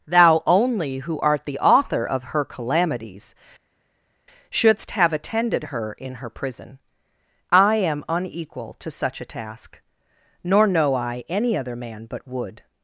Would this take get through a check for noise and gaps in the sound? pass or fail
pass